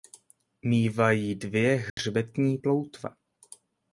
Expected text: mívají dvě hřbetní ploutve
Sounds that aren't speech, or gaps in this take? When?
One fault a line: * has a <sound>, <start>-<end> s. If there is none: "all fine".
* has a dropout, 1.9-2.0 s